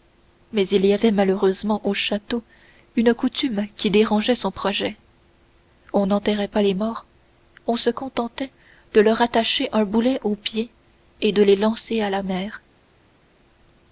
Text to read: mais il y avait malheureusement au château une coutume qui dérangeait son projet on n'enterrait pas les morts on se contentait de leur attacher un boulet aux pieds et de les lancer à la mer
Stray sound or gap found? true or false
false